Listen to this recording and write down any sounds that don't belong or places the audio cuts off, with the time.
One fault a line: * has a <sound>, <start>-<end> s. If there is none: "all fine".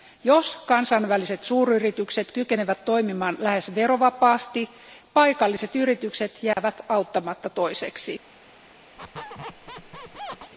* has a dropout, 6.5-6.6 s
* has a squeak, 9.0-10.5 s